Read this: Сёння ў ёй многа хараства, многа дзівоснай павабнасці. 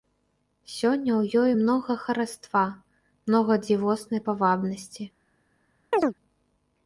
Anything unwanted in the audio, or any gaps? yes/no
yes